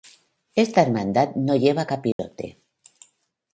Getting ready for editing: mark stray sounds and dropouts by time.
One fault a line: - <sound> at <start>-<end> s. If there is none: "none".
- dropout at 2.1-2.2 s